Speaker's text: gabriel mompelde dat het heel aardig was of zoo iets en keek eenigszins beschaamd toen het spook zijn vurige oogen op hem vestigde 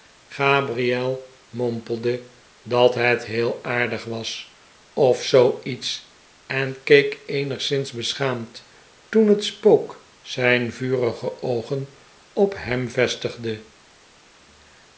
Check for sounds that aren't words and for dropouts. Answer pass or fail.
pass